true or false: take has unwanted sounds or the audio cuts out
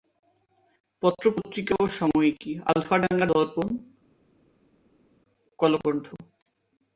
false